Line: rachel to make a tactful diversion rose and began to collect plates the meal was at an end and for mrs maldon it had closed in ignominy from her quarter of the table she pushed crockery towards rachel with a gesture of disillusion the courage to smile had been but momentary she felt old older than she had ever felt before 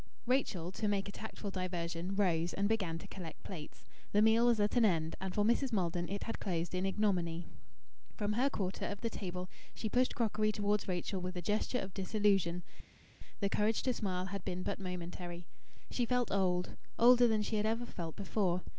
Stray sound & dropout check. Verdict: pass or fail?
pass